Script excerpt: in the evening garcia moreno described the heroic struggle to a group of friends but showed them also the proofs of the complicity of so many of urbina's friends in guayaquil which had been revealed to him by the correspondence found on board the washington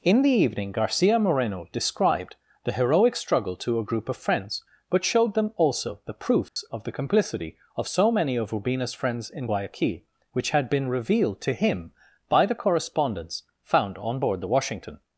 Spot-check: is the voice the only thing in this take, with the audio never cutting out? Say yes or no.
no